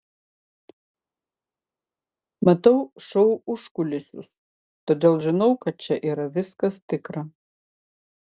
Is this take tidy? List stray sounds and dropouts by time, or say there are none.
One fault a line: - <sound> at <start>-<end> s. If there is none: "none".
none